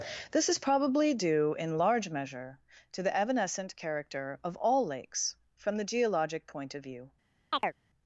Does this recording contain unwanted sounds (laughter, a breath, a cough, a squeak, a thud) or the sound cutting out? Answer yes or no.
yes